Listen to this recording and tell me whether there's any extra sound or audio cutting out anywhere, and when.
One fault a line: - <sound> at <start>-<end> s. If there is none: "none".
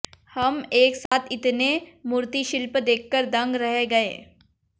- dropout at 1.1-1.1 s